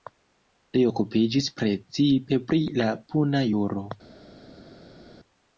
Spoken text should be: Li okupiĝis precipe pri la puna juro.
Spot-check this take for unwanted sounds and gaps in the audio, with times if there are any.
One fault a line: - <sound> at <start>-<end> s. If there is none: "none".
none